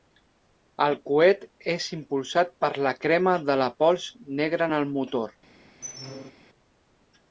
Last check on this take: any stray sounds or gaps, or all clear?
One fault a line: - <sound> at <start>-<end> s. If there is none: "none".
- squeak at 5.8-6.3 s